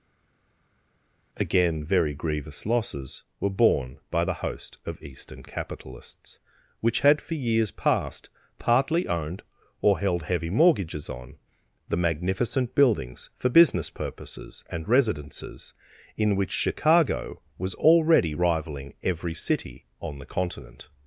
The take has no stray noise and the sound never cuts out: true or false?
true